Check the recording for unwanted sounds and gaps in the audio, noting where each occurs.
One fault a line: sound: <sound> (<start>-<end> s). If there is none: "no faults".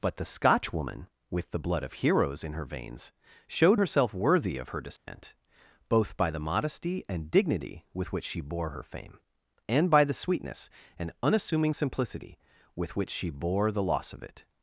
sound: dropout (5.0-5.1 s)